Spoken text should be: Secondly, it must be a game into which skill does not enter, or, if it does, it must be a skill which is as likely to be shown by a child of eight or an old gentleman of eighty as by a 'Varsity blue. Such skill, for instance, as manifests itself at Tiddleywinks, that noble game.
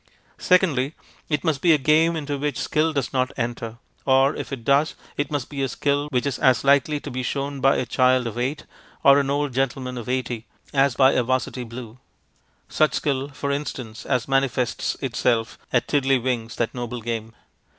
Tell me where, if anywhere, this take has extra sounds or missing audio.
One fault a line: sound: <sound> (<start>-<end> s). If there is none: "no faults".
no faults